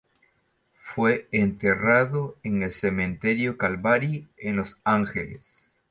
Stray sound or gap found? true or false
false